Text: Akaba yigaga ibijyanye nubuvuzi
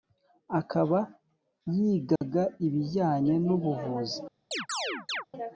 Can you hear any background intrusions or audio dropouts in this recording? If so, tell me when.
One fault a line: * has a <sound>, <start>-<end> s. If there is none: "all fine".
* has a dropout, 2.2-2.2 s
* has a chirp, 4.5-5.3 s